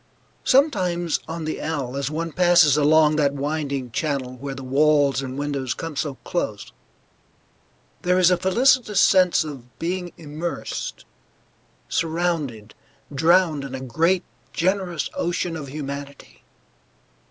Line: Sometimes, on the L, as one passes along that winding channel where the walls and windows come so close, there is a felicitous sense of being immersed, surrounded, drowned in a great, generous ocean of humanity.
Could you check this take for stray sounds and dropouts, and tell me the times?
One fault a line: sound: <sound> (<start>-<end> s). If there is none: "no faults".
no faults